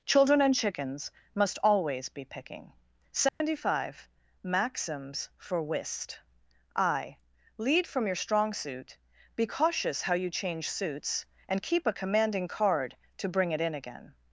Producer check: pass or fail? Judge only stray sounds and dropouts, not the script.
fail